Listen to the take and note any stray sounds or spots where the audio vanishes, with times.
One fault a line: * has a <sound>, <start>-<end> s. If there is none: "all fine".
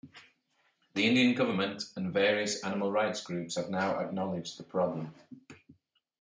all fine